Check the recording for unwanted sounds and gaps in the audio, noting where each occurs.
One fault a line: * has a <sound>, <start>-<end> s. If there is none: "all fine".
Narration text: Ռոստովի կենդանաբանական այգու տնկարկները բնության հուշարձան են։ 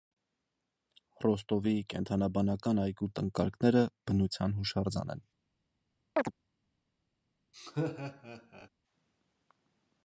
* has a chirp, 6.2-6.3 s
* has a laugh, 7.5-8.7 s